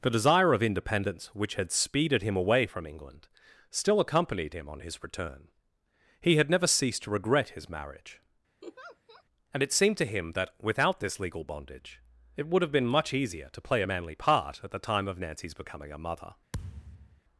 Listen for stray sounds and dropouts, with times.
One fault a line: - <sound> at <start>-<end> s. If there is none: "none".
- laugh at 8.6-9.2 s
- thud at 16.5-17.2 s